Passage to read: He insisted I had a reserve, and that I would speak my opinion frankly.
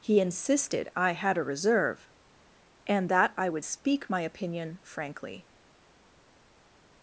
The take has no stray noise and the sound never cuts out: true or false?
true